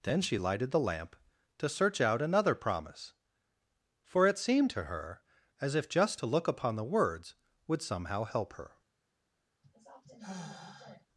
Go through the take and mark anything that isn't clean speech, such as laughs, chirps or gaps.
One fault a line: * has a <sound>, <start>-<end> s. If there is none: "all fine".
* has a sigh, 9.6-11.1 s